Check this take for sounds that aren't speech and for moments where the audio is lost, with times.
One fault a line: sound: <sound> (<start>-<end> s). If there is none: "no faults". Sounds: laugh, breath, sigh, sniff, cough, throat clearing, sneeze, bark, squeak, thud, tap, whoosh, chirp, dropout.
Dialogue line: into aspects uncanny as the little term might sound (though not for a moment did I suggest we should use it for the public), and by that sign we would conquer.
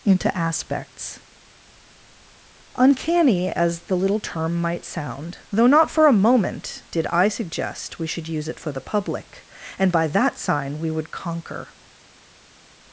no faults